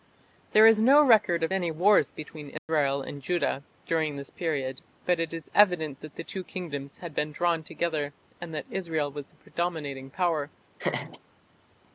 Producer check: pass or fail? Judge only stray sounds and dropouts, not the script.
fail